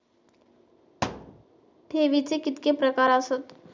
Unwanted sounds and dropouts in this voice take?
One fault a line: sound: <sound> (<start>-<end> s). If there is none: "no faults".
sound: thud (1.0-1.4 s)